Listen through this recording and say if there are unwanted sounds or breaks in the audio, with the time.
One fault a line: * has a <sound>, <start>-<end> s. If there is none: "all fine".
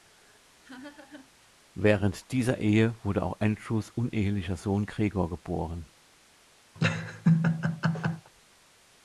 * has a laugh, 0.6-1.5 s
* has a laugh, 6.8-8.3 s